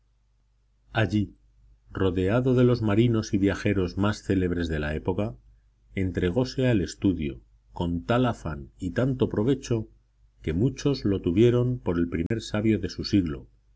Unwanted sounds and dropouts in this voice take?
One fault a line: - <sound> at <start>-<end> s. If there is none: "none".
- dropout at 12.3-12.3 s